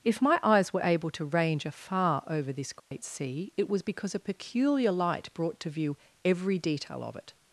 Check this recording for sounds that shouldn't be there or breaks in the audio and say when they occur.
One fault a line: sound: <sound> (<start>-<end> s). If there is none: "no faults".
sound: dropout (2.8-2.9 s)